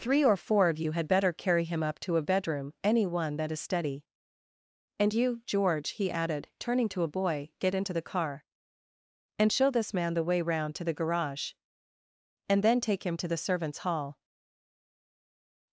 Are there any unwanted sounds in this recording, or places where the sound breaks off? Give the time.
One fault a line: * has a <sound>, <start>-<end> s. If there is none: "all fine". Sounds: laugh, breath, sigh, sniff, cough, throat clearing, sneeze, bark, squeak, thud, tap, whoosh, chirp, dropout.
all fine